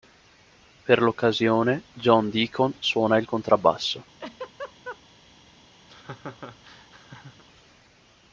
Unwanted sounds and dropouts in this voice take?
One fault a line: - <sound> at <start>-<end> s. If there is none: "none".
- laugh at 4.2-5.0 s
- laugh at 5.9-7.4 s